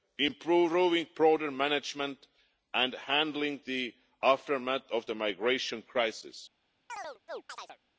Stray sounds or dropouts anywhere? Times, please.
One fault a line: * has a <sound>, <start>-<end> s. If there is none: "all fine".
* has a chirp, 6.9-7.8 s